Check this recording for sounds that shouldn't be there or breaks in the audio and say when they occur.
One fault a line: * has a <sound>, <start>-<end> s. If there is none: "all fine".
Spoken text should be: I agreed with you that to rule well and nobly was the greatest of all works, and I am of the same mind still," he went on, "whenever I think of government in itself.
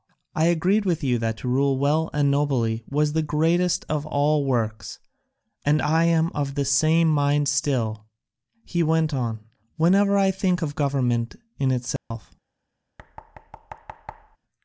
* has a dropout, 12.0-12.1 s
* has a thud, 13.0-14.4 s